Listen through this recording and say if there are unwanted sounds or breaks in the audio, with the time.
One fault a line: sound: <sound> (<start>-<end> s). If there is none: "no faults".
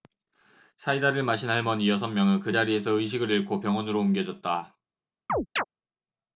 sound: chirp (5.3-5.6 s)